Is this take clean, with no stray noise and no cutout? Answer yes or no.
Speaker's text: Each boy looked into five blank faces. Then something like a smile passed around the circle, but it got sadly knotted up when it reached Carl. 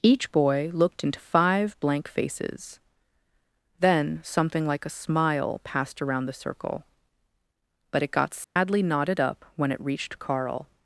no